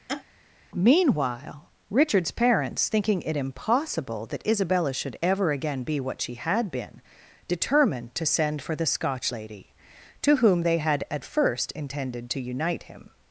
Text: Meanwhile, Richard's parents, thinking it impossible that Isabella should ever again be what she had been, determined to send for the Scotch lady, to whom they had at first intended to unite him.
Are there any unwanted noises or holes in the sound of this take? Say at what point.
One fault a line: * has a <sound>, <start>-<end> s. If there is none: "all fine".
* has a laugh, 0.1-0.2 s